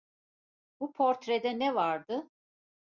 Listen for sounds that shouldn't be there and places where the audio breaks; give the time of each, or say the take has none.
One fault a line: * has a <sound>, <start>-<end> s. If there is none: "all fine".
all fine